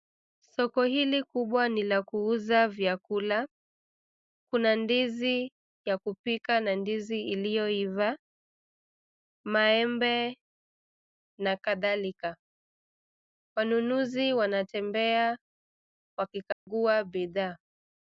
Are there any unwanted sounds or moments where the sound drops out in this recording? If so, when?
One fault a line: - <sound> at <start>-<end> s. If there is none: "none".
- dropout at 16.5-16.7 s